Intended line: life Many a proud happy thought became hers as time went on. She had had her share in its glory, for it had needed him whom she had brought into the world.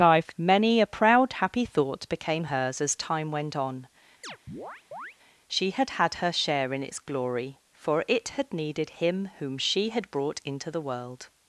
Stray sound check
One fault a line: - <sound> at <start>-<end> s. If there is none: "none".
- chirp at 4.2-5.2 s